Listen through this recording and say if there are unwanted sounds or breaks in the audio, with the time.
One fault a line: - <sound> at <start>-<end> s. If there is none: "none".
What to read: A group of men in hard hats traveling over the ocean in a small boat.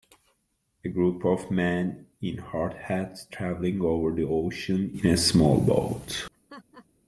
- laugh at 6.3-6.9 s